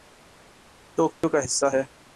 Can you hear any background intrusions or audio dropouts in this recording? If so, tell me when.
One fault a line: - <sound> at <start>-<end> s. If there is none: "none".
- dropout at 1.1-1.2 s